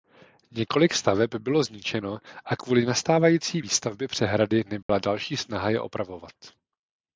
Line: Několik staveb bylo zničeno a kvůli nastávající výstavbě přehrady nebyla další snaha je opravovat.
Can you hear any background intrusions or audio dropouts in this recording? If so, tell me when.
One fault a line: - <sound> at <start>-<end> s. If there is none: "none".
- dropout at 4.8-4.9 s